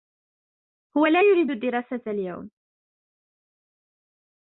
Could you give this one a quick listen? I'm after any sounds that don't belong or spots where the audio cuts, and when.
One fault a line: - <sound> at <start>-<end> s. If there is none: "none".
none